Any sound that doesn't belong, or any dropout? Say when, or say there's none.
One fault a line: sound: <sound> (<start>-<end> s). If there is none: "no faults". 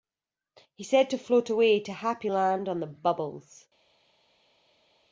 no faults